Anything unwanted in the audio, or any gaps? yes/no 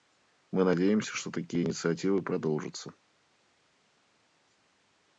no